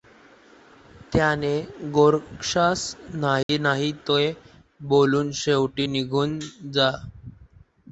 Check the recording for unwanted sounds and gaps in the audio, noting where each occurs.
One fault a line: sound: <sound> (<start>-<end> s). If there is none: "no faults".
sound: dropout (3.4-3.5 s)